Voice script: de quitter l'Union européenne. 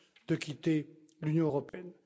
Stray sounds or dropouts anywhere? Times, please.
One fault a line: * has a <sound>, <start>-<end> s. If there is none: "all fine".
* has a dropout, 1.7-1.7 s